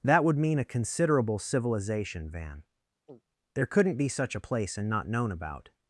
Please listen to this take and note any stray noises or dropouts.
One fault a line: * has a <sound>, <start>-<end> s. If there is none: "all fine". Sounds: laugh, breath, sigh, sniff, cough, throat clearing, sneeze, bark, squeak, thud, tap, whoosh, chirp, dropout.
* has a throat clearing, 3.1-3.2 s